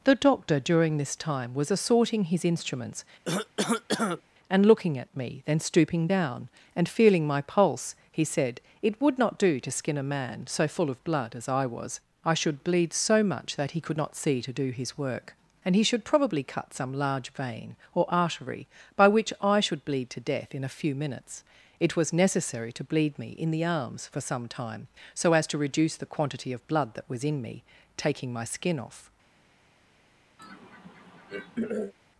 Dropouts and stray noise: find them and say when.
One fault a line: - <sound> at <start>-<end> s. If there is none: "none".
- cough at 3.3-4.2 s
- throat clearing at 30.4-31.9 s